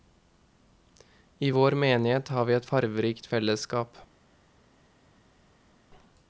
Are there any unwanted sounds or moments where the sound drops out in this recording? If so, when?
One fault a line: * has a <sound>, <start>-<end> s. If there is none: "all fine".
all fine